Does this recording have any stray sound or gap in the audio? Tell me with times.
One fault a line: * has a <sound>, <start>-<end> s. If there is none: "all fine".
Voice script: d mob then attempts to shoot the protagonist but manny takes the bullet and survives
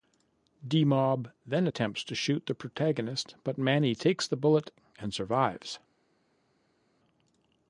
all fine